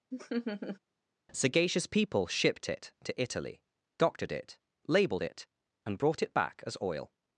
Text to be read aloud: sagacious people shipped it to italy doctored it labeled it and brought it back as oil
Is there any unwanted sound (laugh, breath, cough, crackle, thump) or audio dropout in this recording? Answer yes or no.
yes